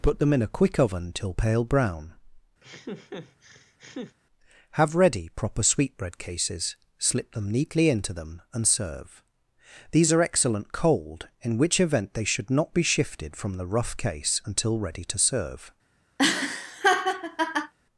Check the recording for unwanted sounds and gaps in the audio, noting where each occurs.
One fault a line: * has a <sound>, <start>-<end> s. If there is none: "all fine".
* has a laugh, 2.6-4.2 s
* has a laugh, 16.2-17.7 s